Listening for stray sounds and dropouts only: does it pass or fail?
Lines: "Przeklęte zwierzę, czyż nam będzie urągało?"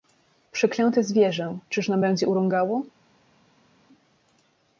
pass